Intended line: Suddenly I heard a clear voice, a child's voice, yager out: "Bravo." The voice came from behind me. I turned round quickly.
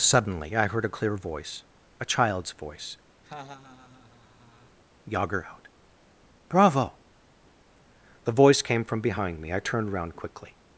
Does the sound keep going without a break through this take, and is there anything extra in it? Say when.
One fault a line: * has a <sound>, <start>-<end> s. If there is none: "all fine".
* has a laugh, 3.2-4.8 s